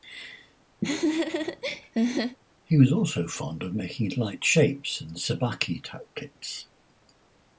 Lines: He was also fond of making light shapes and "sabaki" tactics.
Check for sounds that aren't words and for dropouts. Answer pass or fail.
fail